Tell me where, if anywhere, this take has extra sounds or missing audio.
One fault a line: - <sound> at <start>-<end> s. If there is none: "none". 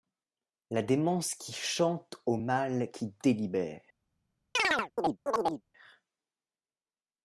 - chirp at 4.5-5.6 s